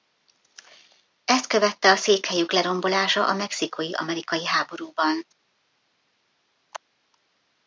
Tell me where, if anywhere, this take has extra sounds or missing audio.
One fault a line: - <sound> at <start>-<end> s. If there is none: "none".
none